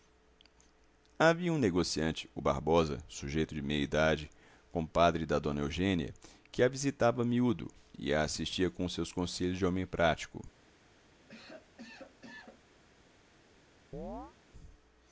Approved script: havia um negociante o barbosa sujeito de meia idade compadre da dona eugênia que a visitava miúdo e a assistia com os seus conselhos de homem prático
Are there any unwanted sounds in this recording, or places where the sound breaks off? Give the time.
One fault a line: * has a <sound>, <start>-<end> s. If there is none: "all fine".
* has a cough, 11.3-12.6 s
* has a chirp, 13.9-14.3 s